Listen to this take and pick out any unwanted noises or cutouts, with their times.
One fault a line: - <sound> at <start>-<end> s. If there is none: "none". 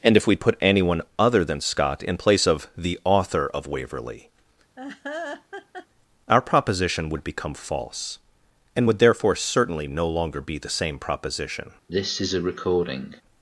- laugh at 4.8-5.9 s
- cough at 11.9-13.2 s